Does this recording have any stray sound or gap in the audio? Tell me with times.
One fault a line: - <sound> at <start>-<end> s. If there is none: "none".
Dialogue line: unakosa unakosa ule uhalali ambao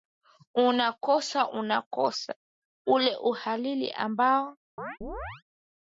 - chirp at 4.8-5.4 s